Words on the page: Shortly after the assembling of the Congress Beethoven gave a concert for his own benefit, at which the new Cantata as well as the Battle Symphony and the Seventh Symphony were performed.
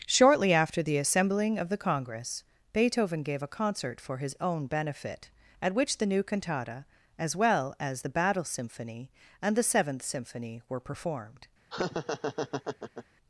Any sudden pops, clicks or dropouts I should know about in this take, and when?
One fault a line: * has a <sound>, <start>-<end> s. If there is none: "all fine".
* has a laugh, 11.7-13.1 s